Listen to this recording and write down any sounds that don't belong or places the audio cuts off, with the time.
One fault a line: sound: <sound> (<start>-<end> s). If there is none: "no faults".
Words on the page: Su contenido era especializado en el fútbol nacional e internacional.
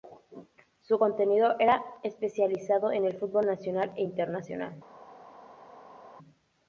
no faults